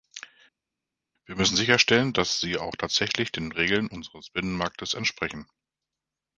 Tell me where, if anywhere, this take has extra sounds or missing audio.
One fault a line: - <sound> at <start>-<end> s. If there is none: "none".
none